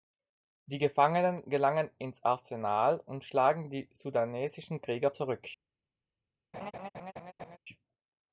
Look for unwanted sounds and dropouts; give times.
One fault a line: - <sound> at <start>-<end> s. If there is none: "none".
- laugh at 6.5-7.6 s